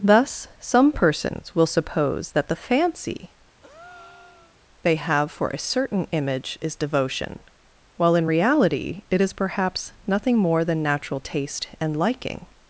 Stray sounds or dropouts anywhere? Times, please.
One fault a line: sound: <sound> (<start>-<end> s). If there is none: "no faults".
sound: breath (3.6-4.6 s)